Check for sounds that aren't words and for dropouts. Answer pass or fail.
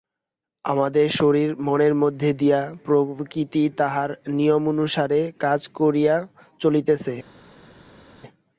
pass